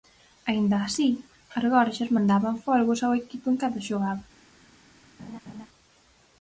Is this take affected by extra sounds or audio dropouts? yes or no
yes